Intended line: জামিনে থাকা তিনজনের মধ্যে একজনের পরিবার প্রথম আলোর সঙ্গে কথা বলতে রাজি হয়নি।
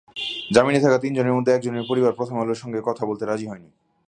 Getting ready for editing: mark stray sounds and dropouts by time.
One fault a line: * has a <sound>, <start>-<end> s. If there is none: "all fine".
all fine